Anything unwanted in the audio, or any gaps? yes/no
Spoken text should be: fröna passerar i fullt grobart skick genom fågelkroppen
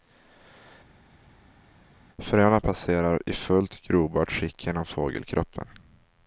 no